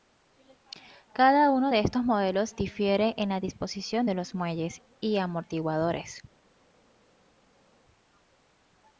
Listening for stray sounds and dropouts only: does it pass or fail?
pass